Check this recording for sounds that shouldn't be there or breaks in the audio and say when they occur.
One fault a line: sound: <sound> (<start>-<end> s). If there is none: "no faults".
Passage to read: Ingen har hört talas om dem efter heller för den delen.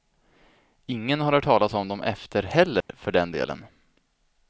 sound: dropout (2.8-2.9 s)